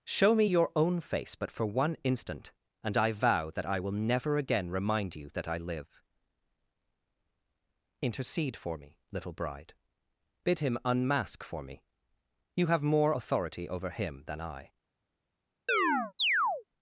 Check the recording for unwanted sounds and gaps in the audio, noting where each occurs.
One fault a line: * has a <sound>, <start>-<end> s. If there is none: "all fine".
* has a chirp, 15.7-16.6 s